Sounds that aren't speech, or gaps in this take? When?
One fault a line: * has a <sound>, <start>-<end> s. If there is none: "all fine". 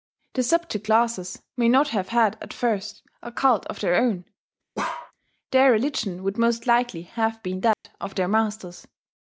* has a bark, 4.8-5.1 s
* has a dropout, 7.7-7.8 s